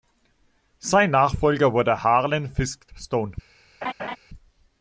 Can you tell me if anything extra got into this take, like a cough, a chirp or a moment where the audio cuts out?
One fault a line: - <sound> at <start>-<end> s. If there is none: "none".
- laugh at 3.8-4.2 s